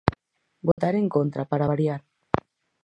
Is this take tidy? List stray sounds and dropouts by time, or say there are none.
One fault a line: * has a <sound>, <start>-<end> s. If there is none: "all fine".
* has a dropout, 0.7-0.8 s